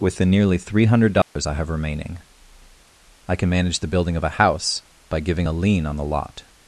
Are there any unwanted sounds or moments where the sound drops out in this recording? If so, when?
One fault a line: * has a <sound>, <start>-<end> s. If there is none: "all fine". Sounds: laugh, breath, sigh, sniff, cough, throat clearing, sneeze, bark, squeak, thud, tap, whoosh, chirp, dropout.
* has a dropout, 1.2-1.4 s